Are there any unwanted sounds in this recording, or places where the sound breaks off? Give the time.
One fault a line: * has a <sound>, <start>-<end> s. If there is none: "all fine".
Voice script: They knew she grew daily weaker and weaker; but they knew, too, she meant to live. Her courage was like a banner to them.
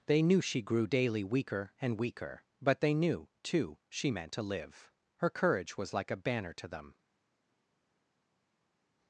all fine